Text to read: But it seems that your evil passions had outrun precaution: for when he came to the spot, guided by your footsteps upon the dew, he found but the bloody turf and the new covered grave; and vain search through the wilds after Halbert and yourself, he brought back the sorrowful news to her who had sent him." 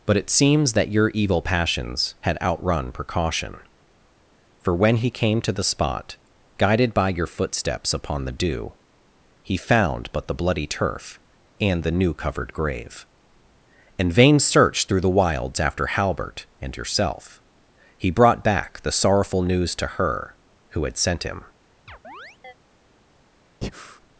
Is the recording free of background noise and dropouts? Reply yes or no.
no